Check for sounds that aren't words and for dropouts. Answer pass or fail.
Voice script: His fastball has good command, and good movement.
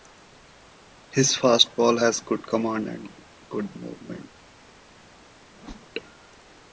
fail